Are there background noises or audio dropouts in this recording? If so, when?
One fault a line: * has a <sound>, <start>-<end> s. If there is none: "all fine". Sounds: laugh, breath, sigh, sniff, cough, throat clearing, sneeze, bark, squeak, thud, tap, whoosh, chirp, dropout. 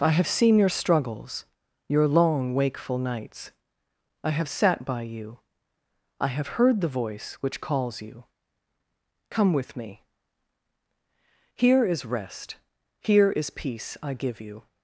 all fine